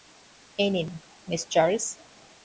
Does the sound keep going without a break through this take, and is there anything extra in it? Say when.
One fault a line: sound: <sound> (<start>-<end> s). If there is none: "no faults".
no faults